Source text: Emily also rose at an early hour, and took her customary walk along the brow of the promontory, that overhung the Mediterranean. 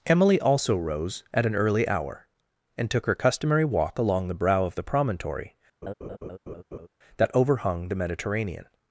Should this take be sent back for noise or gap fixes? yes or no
yes